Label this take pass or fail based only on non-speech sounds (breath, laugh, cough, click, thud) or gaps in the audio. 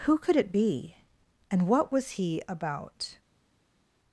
pass